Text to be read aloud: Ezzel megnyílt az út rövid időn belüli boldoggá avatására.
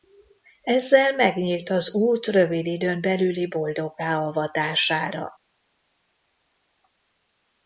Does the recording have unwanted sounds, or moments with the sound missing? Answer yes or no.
no